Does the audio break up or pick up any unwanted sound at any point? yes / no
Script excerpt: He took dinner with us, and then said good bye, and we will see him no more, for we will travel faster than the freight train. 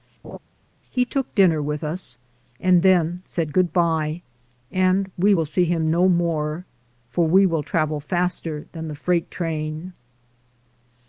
yes